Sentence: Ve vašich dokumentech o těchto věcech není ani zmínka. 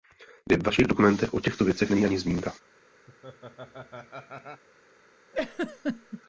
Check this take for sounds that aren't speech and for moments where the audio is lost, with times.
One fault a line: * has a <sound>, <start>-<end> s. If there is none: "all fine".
* has a laugh, 3.1-4.6 s
* has a laugh, 5.3-6.2 s